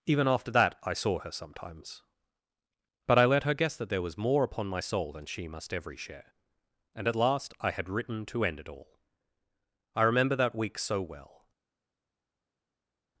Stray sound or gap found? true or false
false